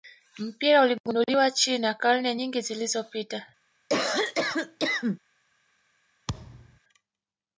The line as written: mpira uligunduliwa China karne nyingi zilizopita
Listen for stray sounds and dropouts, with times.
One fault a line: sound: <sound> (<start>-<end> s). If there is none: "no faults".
sound: cough (3.9-5.2 s)
sound: thud (6.3-6.8 s)